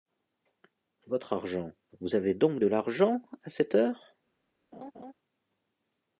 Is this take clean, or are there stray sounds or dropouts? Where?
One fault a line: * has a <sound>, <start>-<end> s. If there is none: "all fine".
* has a laugh, 4.7-5.1 s